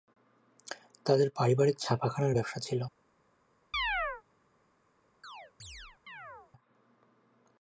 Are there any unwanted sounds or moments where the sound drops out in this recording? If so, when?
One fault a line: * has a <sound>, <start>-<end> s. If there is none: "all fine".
* has a chirp, 3.7-4.2 s
* has a chirp, 5.2-6.5 s